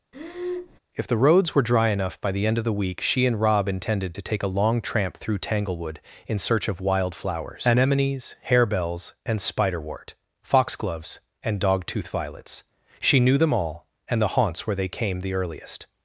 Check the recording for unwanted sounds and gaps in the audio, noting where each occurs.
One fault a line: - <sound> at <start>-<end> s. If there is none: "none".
- breath at 0.1-0.8 s